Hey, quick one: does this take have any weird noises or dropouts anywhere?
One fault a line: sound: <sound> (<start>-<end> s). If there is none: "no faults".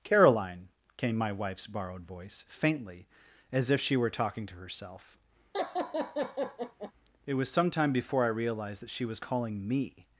sound: laugh (5.5-6.9 s)